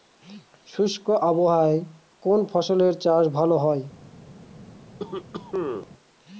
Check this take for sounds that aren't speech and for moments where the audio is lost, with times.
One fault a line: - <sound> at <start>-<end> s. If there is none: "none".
- cough at 5.0-5.9 s